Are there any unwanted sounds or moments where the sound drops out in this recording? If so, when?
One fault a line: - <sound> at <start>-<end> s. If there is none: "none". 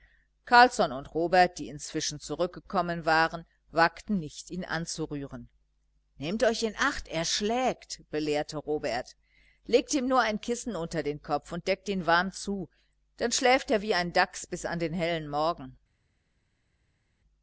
none